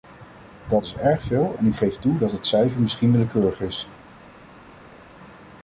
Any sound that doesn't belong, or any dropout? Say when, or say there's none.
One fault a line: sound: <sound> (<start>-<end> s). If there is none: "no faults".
no faults